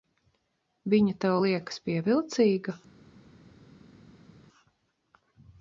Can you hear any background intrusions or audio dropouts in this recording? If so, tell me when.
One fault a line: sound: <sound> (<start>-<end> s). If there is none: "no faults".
no faults